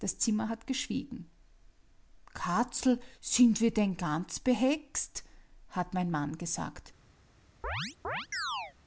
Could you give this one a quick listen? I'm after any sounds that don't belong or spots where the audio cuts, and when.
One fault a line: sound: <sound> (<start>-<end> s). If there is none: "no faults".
sound: chirp (7.6-8.7 s)